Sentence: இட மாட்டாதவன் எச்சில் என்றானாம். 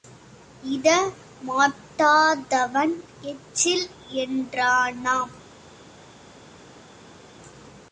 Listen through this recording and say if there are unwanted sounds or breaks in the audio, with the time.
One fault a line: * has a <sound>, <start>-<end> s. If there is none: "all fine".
all fine